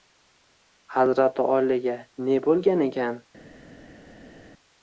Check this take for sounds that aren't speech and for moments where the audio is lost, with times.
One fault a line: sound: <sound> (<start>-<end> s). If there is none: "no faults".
no faults